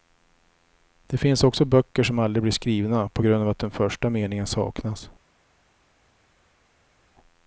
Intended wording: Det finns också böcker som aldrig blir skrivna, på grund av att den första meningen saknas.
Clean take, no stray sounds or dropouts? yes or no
yes